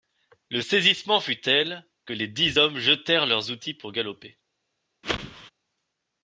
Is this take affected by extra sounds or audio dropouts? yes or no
yes